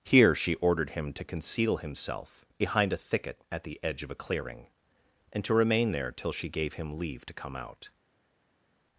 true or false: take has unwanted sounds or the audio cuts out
false